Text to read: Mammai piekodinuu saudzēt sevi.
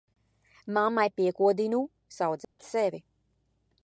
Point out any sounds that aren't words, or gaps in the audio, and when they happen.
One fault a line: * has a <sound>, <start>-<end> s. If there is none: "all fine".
* has a dropout, 2.4-2.6 s